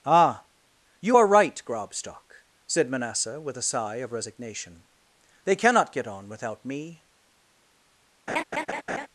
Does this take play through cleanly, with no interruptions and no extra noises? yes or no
no